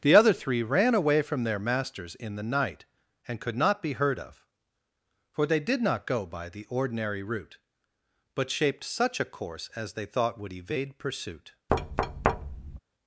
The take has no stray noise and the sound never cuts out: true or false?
false